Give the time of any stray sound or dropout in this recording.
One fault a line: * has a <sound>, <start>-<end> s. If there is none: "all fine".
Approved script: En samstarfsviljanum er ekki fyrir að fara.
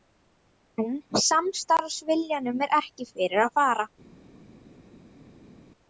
all fine